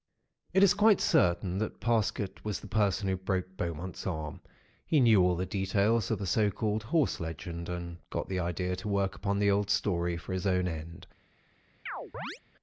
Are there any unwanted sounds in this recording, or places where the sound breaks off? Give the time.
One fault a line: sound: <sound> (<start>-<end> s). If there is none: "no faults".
sound: chirp (11.9-12.4 s)